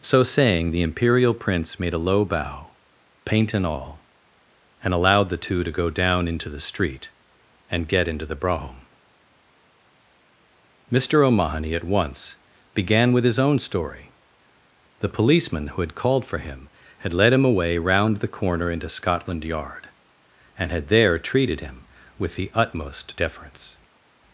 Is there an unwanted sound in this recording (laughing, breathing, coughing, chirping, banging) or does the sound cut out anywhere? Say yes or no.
no